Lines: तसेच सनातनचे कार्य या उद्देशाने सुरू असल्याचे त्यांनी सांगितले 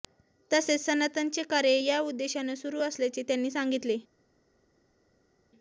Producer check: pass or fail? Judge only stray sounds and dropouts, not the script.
pass